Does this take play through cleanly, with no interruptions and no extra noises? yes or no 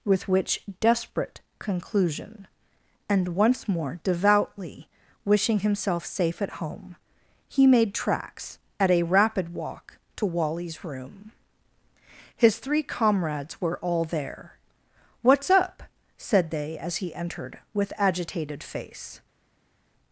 yes